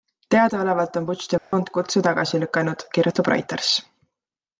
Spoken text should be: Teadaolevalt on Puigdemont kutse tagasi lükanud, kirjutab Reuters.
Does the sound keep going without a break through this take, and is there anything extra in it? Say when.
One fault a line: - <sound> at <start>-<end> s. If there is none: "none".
- dropout at 1.4-1.5 s